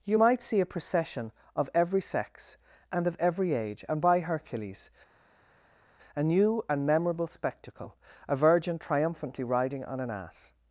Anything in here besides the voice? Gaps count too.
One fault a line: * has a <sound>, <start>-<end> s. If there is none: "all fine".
all fine